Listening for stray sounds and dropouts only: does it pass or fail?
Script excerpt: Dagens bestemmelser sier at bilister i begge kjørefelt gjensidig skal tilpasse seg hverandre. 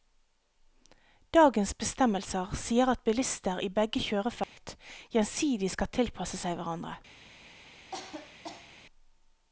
fail